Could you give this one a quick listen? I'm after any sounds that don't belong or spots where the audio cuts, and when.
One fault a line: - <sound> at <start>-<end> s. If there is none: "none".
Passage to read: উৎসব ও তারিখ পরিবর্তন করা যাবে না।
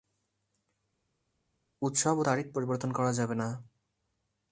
none